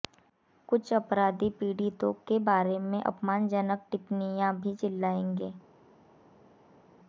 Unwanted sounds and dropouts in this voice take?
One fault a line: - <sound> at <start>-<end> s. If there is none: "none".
none